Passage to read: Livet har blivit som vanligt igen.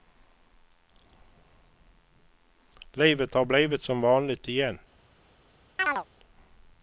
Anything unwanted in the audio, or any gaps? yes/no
yes